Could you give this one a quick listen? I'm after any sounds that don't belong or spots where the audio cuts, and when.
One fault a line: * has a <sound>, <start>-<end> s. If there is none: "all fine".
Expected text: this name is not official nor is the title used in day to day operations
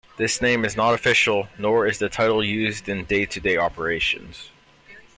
all fine